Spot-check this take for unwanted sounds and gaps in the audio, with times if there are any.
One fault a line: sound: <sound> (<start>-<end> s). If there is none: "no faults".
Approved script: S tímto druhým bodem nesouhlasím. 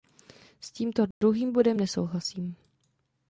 sound: dropout (1.1-1.2 s)